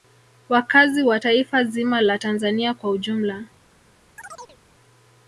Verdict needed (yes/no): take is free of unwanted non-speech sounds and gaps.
no